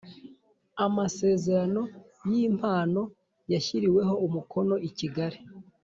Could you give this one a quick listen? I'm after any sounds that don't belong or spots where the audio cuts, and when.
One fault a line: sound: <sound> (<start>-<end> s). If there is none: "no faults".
no faults